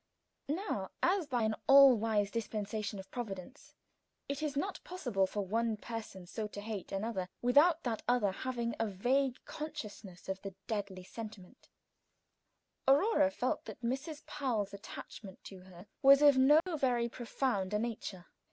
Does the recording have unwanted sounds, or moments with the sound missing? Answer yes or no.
yes